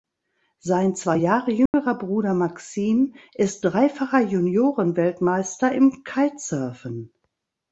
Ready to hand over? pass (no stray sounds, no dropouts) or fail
fail